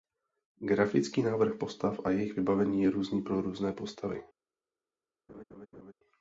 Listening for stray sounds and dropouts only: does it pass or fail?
fail